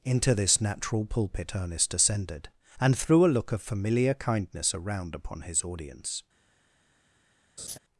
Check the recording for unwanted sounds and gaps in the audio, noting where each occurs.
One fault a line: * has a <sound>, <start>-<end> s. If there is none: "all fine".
* has a laugh, 7.6-7.8 s